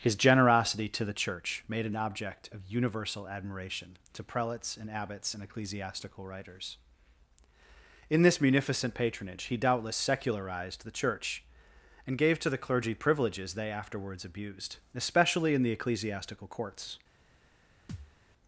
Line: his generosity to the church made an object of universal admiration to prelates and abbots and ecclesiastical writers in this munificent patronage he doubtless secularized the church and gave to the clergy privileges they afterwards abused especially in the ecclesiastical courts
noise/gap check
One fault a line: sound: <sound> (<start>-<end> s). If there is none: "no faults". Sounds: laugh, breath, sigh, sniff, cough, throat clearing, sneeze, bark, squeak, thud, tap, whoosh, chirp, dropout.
sound: thud (17.9-18.2 s)